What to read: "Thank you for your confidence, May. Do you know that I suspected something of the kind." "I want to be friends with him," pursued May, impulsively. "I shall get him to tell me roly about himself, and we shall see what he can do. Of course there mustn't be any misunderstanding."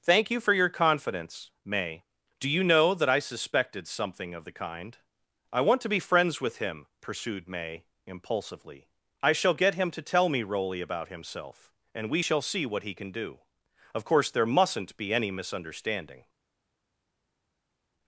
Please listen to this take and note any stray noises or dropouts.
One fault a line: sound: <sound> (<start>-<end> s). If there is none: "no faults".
no faults